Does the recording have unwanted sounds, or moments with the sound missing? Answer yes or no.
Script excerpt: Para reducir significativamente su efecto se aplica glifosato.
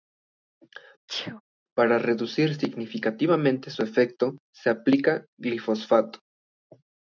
yes